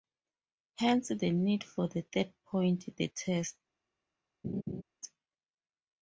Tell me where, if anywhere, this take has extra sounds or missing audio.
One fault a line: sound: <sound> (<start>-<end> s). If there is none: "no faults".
sound: laugh (4.4-4.8 s)